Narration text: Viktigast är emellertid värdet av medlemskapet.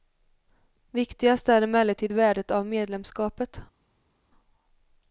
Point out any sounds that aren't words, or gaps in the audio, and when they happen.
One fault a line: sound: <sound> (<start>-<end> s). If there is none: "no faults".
no faults